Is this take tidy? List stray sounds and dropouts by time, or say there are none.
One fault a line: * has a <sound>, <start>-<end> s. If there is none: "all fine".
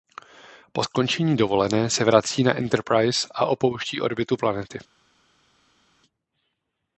all fine